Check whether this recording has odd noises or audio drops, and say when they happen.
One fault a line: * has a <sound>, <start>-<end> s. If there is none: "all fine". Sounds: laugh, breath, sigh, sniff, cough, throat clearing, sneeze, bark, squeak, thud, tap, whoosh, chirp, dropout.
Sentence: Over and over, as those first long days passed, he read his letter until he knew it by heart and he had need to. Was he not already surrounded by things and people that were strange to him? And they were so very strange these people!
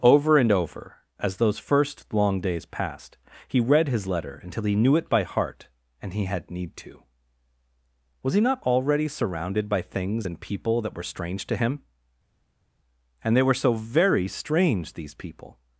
all fine